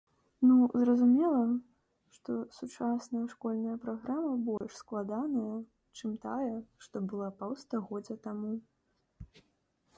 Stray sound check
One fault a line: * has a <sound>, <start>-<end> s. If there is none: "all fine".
* has a dropout, 4.6-4.6 s